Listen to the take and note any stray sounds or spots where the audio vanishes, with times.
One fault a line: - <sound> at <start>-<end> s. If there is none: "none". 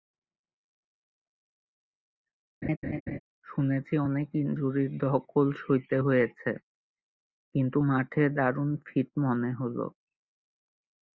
- laugh at 2.6-3.2 s